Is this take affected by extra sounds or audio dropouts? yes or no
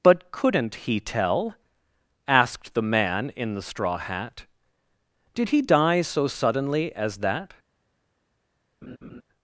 yes